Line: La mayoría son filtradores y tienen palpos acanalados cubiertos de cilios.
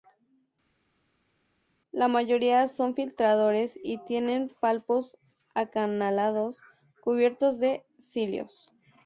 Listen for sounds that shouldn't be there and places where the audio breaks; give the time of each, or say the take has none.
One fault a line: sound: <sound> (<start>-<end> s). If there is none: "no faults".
no faults